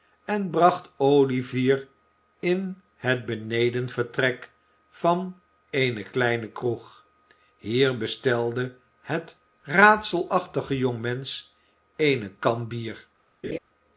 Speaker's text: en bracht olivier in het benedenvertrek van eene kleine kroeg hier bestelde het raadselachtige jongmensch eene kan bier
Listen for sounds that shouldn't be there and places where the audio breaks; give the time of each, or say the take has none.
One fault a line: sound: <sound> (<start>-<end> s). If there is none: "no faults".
sound: laugh (13.4-13.6 s)